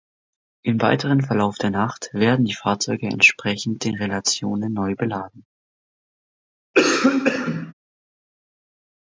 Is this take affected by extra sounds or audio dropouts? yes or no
yes